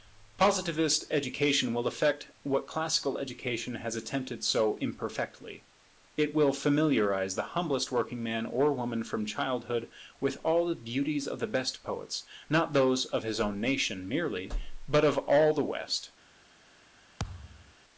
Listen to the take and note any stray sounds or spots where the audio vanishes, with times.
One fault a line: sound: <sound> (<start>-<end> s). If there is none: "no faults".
sound: thud (17.2-17.7 s)